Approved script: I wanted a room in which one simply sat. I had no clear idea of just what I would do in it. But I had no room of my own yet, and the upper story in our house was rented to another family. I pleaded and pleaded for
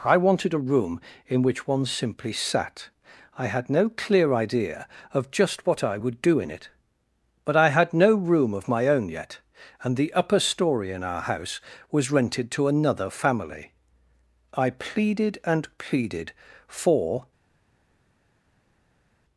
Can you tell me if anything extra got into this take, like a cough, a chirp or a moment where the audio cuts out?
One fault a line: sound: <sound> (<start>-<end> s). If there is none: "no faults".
no faults